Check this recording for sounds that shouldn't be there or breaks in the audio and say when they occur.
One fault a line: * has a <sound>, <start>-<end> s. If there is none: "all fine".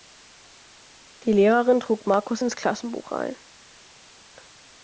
all fine